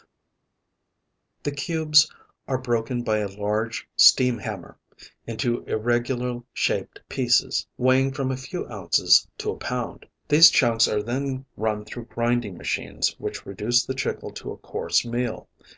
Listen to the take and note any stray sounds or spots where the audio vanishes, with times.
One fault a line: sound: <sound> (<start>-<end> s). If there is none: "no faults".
no faults